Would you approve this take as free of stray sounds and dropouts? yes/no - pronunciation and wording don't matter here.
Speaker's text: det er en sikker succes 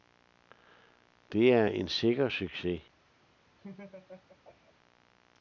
no